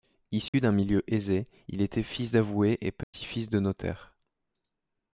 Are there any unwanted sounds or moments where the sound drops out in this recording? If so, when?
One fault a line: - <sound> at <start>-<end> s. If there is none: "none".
- dropout at 0.5-0.5 s
- dropout at 3.0-3.1 s